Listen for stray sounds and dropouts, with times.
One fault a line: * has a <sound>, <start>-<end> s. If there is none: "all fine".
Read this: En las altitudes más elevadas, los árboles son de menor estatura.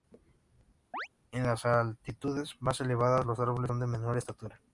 * has a chirp, 0.9-1.1 s